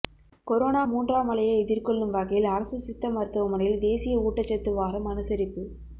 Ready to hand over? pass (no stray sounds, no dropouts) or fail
pass